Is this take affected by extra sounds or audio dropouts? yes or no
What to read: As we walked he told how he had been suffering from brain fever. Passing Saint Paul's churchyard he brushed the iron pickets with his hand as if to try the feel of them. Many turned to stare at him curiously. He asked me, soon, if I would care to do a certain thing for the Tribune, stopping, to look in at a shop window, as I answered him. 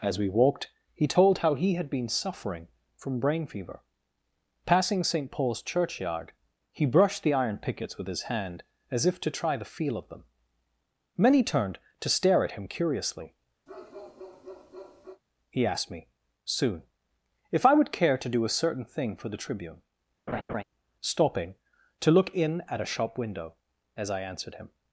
yes